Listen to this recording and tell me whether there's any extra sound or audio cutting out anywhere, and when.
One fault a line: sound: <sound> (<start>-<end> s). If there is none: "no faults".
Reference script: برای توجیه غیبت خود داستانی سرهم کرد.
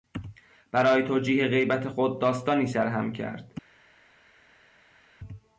no faults